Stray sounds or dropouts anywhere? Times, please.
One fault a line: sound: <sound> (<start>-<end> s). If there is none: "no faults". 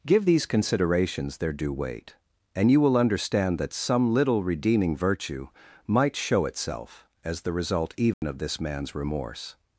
sound: dropout (8.1-8.2 s)